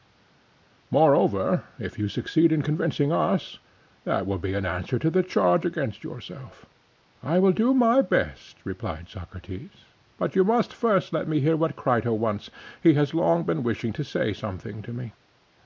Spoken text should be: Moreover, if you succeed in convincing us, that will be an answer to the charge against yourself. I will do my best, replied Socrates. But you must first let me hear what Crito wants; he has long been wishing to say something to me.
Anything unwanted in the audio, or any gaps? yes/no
no